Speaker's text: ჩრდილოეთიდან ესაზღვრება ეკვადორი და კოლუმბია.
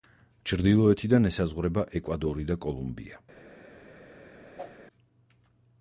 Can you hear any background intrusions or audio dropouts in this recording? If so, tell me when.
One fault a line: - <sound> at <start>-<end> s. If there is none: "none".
- whoosh at 4.6-4.8 s